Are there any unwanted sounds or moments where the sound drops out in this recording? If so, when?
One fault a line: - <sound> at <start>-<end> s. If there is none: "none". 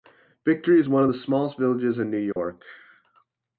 - dropout at 2.3-2.4 s